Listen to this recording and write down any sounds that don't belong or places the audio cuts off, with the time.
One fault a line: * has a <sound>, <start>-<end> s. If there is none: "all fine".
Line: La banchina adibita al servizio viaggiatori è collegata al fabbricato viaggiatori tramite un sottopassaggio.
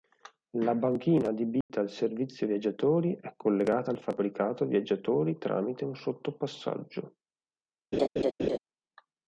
* has a dropout, 1.6-1.7 s
* has a laugh, 7.9-8.6 s